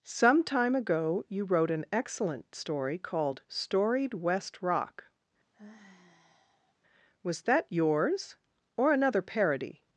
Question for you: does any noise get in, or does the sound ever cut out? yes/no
yes